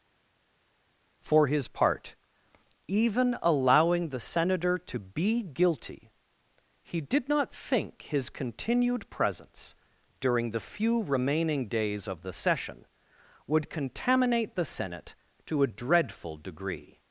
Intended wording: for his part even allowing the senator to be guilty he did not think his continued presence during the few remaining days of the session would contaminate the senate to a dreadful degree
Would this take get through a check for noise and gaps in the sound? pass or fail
pass